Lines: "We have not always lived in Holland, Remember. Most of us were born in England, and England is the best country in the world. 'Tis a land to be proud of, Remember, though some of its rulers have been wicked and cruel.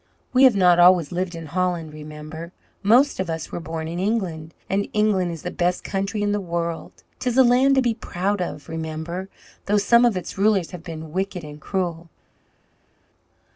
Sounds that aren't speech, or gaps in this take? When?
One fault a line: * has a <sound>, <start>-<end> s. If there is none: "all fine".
all fine